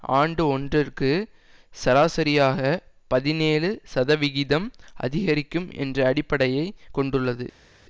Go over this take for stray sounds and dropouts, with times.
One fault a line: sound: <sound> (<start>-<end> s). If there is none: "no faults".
no faults